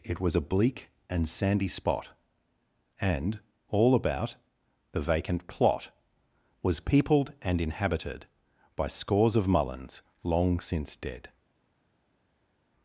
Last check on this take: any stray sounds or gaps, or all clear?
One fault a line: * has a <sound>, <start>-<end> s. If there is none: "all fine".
all fine